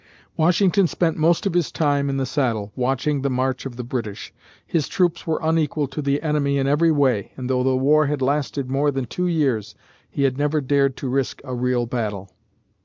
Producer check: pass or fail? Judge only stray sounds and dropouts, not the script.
pass